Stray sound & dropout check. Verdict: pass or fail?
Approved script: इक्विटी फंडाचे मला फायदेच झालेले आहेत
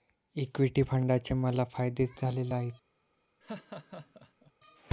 fail